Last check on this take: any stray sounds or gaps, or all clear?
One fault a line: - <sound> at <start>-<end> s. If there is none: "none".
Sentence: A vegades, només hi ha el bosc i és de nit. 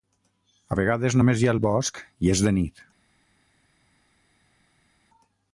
none